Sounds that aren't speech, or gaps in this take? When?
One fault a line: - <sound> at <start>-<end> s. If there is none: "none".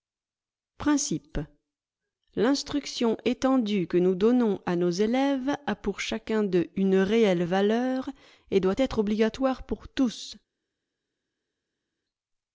none